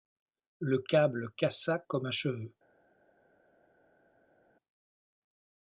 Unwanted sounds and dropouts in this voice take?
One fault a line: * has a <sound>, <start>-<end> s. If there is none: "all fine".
all fine